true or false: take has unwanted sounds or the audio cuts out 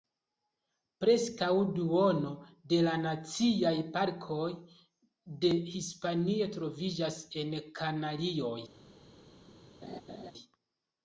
true